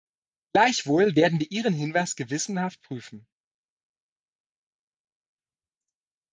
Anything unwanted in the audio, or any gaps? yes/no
no